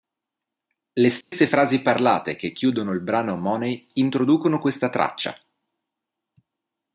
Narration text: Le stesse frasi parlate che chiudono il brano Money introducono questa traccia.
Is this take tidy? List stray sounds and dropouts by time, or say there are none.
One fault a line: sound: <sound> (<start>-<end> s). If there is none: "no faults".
sound: dropout (1.2-1.3 s)